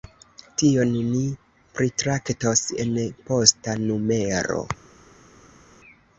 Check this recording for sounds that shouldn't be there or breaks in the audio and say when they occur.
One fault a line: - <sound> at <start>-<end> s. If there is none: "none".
none